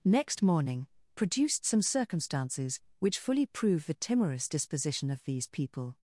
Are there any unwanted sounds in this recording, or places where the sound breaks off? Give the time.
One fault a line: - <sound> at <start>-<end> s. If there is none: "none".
none